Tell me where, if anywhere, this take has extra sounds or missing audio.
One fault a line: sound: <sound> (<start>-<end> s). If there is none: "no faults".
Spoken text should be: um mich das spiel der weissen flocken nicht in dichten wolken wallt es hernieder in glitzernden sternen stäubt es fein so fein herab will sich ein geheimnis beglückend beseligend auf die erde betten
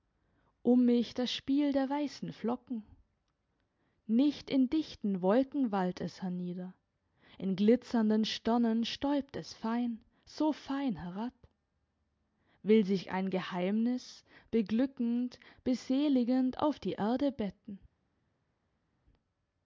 no faults